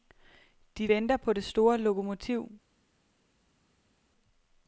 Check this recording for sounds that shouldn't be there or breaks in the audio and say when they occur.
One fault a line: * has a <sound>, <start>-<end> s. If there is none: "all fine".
all fine